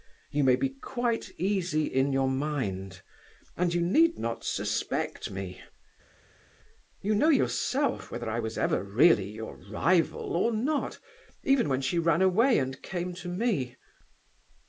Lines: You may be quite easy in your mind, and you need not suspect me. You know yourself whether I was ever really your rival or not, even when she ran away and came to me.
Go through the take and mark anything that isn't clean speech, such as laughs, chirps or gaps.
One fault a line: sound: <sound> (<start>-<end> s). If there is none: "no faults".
no faults